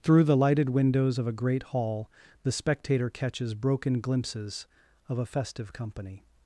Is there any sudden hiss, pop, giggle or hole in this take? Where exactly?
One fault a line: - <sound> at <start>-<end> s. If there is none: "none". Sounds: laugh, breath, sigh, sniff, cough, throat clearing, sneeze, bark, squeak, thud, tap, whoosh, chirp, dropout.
none